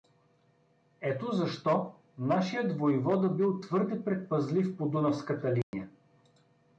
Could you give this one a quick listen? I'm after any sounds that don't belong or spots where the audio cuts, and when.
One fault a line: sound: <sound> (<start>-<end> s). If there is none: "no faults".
sound: dropout (5.6-5.7 s)